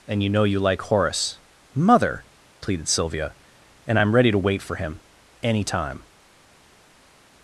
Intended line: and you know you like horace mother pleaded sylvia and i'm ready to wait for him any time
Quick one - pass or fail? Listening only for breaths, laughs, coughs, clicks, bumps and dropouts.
pass